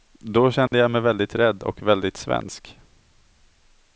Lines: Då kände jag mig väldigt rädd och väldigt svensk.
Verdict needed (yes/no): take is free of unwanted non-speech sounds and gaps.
no